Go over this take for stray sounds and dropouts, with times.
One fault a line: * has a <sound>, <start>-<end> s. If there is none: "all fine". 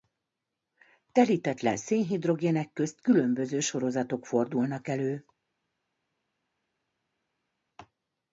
all fine